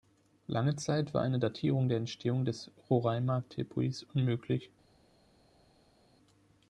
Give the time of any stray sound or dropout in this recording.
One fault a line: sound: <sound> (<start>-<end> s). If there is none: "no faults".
no faults